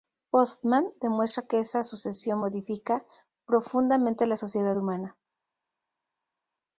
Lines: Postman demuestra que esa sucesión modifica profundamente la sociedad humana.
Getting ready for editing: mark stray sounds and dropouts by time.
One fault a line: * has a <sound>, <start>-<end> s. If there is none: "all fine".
all fine